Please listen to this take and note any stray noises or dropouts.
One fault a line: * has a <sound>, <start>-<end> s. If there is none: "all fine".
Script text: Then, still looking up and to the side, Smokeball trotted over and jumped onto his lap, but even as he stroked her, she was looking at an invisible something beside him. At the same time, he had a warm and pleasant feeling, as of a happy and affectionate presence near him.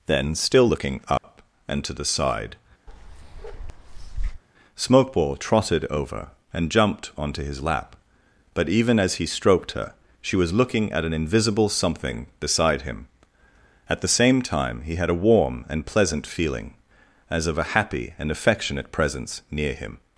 * has a dropout, 1.2-1.2 s
* has a bark, 2.9-4.4 s